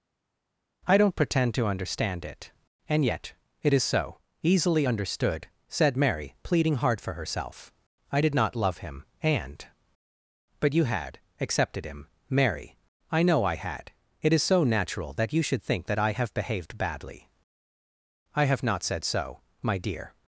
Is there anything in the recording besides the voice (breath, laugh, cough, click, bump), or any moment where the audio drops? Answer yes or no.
no